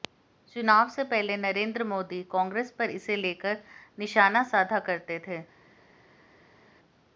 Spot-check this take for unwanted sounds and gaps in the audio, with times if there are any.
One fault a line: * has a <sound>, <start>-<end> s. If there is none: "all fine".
all fine